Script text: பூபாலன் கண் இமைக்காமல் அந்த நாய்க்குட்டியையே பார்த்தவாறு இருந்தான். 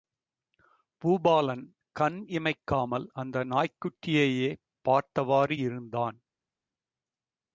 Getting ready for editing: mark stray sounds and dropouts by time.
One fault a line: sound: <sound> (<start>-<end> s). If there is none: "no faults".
no faults